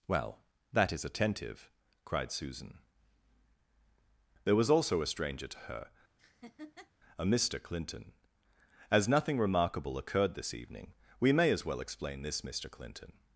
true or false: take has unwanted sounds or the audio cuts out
true